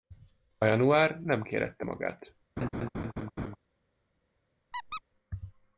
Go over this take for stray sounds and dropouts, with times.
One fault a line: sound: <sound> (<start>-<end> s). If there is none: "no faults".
sound: laugh (2.6-3.6 s)
sound: squeak (4.7-5.0 s)